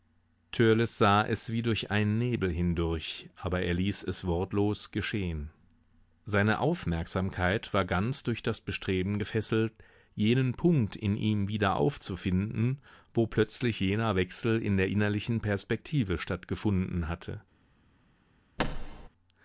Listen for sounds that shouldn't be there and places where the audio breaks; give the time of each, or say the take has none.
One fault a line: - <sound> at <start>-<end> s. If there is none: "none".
- thud at 18.6-19.1 s